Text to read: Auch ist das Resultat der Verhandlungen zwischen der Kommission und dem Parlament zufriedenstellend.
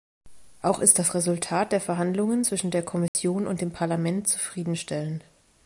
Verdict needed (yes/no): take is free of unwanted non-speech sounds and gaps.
no